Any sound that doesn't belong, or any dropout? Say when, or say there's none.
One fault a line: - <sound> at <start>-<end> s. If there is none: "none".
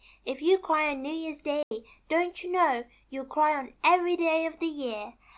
- dropout at 1.6-1.7 s